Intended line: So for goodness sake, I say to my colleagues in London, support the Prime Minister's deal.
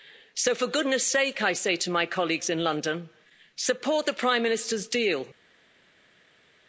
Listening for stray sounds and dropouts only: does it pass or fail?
pass